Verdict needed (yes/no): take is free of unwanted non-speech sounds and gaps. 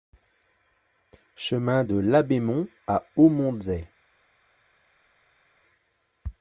yes